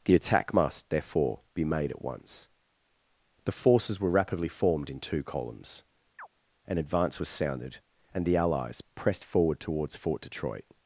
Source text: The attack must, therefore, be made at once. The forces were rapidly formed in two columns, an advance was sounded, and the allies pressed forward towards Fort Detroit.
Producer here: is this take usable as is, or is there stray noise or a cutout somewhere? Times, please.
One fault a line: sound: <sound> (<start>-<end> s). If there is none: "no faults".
sound: chirp (6.2-6.3 s)